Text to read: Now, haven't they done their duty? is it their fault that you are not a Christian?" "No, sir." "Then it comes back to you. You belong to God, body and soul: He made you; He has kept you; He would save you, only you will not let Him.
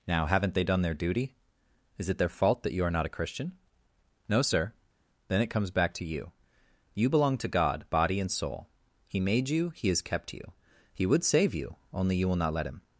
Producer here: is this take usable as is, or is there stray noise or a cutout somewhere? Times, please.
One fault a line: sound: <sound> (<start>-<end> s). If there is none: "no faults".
no faults